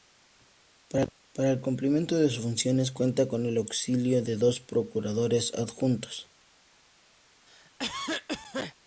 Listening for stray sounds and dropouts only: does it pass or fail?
fail